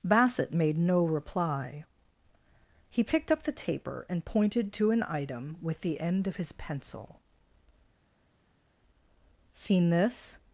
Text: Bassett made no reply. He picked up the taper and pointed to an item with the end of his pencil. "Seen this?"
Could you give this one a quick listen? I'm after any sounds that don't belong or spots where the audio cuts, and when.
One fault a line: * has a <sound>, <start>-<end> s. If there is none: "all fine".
all fine